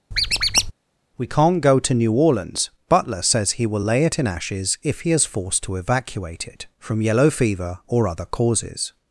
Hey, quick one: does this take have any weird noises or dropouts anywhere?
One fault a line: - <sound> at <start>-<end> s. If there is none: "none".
- squeak at 0.1-0.7 s